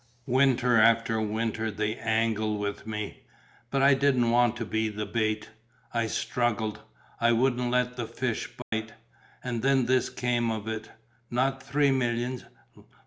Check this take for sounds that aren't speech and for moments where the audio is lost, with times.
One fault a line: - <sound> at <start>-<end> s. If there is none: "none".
- dropout at 8.6-8.7 s